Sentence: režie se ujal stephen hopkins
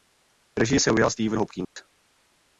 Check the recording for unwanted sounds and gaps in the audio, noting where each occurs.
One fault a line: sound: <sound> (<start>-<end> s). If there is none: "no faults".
sound: dropout (1.6-1.8 s)